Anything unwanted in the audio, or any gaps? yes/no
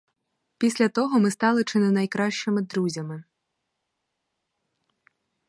no